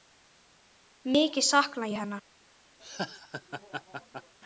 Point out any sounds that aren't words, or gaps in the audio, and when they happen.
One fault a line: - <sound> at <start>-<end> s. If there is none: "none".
- laugh at 2.8-4.3 s